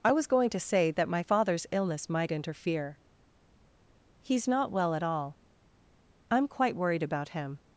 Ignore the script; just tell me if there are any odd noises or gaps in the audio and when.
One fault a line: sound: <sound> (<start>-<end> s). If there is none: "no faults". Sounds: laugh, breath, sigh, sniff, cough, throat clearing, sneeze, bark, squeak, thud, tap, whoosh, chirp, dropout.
no faults